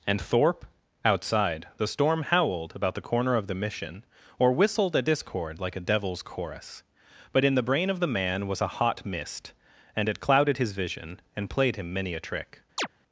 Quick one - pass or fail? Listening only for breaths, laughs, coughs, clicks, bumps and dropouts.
fail